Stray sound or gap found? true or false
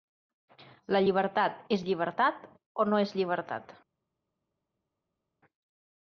false